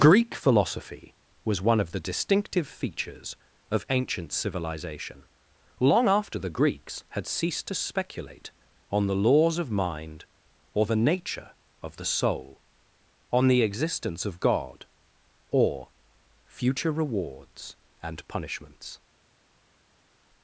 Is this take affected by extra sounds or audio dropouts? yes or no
no